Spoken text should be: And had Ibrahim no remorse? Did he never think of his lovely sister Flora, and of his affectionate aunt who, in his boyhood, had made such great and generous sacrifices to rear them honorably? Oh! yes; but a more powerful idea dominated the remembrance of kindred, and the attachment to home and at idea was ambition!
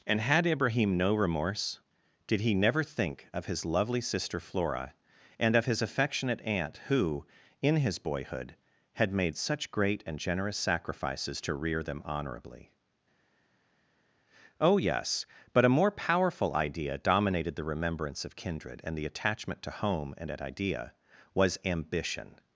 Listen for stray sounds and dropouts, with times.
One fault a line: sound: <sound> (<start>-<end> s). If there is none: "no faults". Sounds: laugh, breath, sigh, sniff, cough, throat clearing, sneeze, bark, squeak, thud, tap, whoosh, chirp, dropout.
no faults